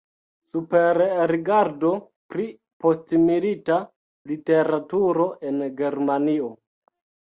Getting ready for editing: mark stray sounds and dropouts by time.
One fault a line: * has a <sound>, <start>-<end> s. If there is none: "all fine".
all fine